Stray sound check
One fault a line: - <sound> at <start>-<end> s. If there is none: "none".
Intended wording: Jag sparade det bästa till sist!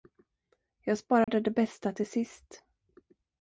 - dropout at 1.2-1.3 s